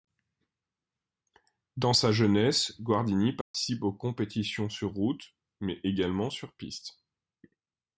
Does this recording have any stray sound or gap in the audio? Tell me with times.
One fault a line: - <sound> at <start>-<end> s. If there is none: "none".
- dropout at 3.4-3.5 s